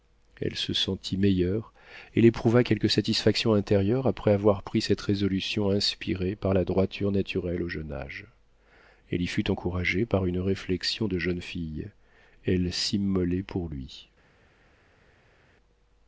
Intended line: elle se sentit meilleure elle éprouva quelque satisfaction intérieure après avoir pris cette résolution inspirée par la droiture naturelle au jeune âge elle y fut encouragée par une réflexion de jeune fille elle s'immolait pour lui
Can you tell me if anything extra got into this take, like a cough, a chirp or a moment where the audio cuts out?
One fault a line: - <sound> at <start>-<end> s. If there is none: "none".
none